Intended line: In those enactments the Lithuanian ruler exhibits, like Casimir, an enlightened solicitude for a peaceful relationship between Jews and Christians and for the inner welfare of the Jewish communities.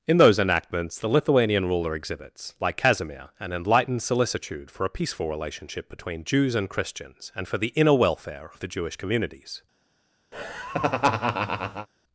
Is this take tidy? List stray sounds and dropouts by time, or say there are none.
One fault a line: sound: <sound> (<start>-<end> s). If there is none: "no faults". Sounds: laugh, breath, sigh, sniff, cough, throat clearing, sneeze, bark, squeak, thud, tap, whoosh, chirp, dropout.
sound: laugh (10.3-11.9 s)